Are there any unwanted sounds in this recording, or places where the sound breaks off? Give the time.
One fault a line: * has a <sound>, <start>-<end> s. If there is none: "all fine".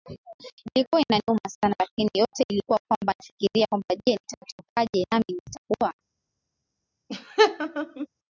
* has a laugh, 7.1-8.1 s